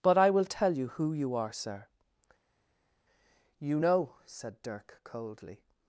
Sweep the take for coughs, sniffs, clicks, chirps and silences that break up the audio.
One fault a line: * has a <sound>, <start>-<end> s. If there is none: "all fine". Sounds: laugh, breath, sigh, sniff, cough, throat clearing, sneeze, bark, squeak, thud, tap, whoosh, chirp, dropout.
all fine